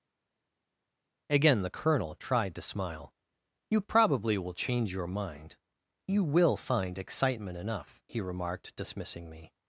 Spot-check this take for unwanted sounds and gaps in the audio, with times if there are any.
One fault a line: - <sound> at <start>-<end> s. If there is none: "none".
none